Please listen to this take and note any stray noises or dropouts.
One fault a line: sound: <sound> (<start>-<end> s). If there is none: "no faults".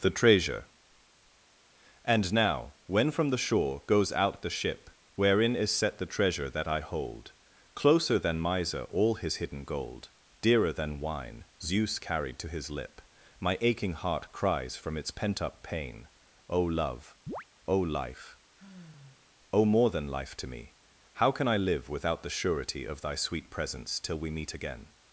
sound: chirp (17.3-17.4 s)
sound: sigh (18.6-19.4 s)